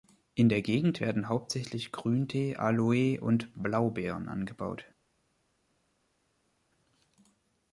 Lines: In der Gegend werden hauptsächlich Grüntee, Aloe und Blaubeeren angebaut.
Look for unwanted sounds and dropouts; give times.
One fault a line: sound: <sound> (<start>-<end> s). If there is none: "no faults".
no faults